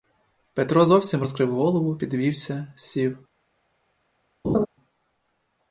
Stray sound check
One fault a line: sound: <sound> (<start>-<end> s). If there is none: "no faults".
sound: laugh (4.4-4.7 s)